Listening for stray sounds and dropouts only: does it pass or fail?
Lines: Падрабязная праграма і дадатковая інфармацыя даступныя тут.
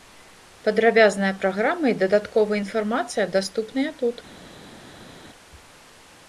pass